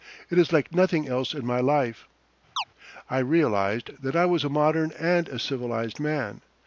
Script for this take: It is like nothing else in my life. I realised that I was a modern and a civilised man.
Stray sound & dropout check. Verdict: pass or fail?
fail